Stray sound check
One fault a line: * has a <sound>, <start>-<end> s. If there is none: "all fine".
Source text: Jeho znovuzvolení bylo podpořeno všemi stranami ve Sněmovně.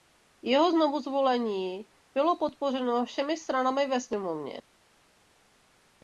all fine